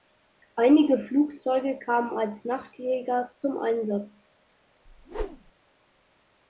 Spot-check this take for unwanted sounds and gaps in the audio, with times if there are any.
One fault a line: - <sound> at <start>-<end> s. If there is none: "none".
- whoosh at 4.9-5.5 s